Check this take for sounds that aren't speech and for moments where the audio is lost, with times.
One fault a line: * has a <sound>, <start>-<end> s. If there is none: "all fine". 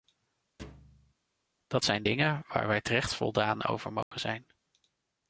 * has a thud, 0.6-1.1 s
* has a dropout, 4.0-4.1 s